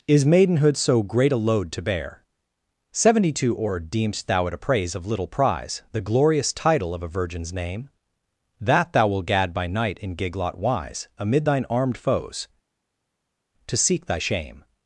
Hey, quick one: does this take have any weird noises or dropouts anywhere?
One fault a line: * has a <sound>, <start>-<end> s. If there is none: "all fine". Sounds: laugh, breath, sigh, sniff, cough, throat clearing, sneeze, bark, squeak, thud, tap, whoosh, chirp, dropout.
all fine